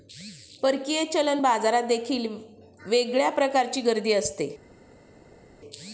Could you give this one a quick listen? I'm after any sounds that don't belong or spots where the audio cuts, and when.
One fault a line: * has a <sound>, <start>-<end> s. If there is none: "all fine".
all fine